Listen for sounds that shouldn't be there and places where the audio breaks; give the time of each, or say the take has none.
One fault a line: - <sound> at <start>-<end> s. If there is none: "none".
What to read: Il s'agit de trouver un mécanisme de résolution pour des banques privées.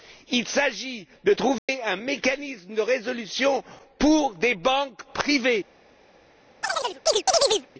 - dropout at 1.6-1.7 s
- chirp at 6.6-7.7 s